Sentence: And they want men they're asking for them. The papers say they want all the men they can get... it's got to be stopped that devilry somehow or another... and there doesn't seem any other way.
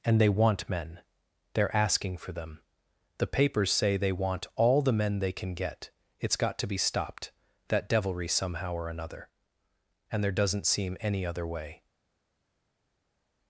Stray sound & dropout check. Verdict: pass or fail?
pass